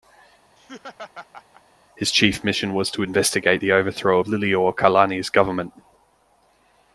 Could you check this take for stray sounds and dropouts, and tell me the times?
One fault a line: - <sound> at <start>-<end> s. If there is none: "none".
- laugh at 0.6-1.6 s